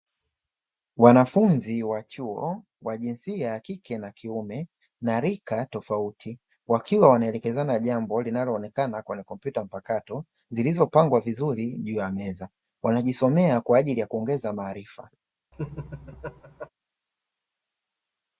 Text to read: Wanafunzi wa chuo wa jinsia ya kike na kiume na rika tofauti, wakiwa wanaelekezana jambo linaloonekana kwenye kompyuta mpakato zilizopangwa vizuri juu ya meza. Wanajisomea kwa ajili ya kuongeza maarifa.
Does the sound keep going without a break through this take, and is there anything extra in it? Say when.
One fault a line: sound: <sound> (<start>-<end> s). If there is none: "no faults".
sound: laugh (15.5-16.7 s)